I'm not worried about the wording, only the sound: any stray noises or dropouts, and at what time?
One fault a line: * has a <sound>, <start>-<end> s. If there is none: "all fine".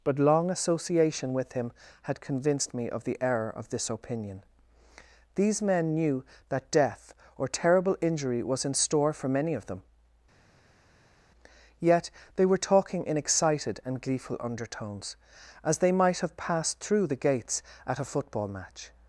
all fine